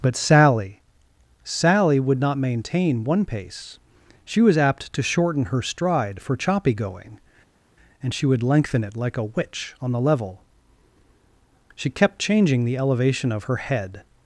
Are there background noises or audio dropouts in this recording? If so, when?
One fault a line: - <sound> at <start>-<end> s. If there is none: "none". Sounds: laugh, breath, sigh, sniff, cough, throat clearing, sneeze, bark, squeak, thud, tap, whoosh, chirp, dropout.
none